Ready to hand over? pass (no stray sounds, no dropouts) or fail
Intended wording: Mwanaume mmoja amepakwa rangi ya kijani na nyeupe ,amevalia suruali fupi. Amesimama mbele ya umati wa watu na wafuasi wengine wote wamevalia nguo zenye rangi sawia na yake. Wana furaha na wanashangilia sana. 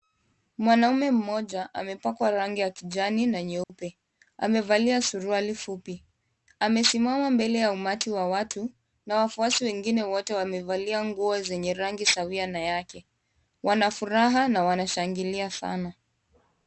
fail